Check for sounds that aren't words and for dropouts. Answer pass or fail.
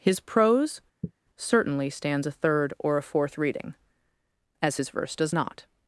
fail